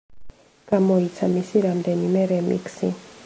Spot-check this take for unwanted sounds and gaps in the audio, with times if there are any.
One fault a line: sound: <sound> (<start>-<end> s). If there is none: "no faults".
no faults